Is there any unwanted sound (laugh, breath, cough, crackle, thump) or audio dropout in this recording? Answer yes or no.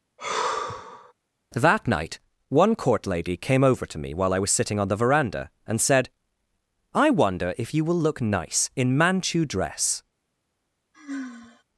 yes